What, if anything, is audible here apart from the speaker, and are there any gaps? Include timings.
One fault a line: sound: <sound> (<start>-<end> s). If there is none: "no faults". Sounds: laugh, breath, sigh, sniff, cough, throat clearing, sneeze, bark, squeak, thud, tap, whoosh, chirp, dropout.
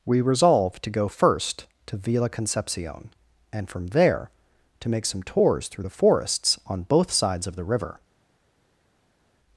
no faults